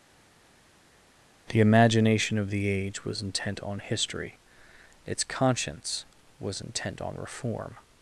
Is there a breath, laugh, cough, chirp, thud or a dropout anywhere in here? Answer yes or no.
no